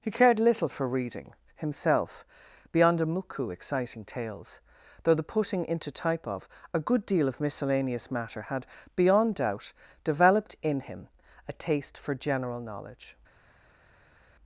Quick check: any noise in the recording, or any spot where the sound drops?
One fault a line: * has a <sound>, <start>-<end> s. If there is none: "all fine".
all fine